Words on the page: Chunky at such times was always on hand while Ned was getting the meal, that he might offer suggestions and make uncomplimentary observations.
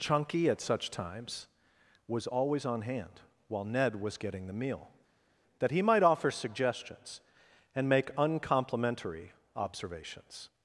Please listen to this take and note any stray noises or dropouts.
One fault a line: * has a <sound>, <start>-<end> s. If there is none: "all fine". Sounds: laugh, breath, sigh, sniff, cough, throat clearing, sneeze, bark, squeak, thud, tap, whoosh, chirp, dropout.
all fine